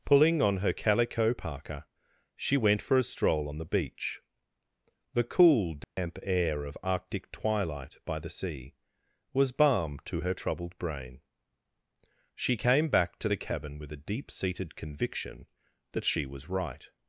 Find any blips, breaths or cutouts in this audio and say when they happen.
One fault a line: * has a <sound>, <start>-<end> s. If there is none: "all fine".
* has a dropout, 5.8-6.0 s